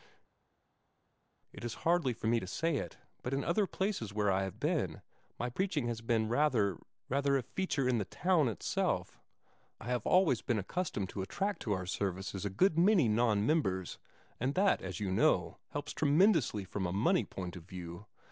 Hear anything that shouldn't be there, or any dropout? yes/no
no